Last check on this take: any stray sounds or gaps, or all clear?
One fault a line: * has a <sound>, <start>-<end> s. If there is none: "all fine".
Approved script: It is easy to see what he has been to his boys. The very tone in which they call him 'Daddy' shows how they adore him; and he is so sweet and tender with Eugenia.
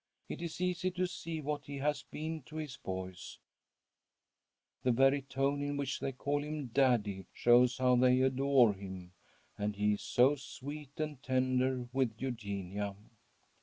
all fine